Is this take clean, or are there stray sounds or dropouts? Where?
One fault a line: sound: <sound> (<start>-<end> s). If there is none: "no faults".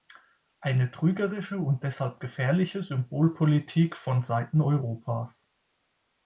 no faults